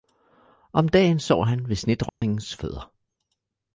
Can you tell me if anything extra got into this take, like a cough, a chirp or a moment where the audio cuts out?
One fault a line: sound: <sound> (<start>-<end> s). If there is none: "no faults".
sound: dropout (2.1-2.2 s)